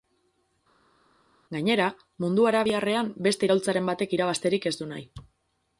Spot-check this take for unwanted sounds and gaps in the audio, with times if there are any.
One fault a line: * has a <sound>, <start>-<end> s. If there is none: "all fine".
all fine